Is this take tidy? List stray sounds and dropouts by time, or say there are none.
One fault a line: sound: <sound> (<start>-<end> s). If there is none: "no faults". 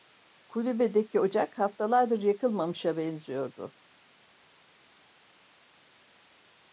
no faults